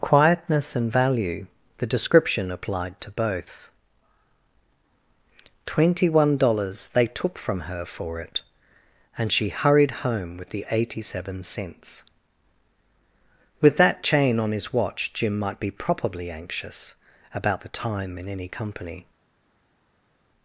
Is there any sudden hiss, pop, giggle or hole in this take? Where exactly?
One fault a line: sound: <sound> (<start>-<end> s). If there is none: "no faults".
no faults